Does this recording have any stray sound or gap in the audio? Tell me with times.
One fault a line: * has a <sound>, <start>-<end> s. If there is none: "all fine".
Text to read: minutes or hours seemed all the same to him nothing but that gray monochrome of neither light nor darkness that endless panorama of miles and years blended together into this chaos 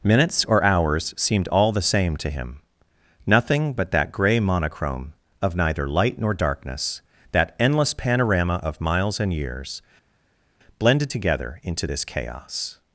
all fine